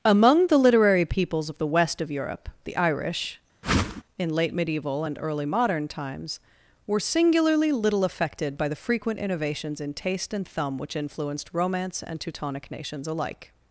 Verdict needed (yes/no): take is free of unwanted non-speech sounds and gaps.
no